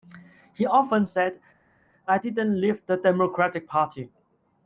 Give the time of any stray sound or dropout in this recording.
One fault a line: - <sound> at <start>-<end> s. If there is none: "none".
none